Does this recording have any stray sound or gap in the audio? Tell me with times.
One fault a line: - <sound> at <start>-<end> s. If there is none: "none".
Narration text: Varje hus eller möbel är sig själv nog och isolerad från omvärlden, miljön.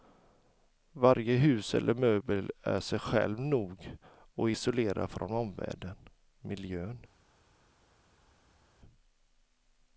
none